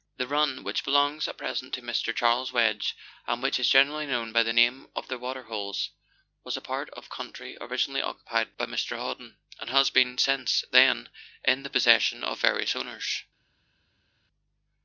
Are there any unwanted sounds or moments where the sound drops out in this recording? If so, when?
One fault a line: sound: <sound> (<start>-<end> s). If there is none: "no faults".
no faults